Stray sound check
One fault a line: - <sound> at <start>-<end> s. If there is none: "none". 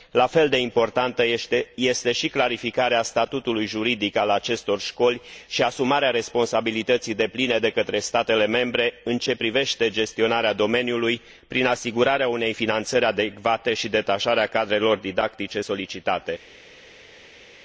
none